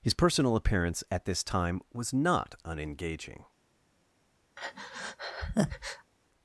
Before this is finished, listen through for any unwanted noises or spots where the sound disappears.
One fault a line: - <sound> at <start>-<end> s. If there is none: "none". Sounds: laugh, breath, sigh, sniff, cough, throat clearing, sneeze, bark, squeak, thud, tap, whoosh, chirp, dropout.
- breath at 4.6-6.1 s